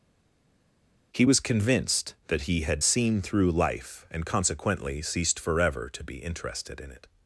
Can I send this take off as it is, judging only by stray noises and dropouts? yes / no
yes